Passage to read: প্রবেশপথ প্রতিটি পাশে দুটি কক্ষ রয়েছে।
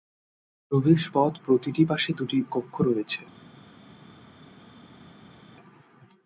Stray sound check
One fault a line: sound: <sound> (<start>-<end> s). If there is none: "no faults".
no faults